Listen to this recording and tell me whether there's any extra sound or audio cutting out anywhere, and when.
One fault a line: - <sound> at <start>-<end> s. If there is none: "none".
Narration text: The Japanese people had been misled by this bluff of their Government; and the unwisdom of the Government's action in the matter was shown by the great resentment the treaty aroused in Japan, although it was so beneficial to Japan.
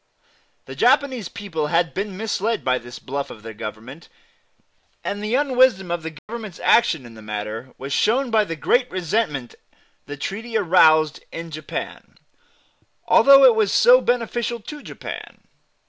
- dropout at 6.2-6.3 s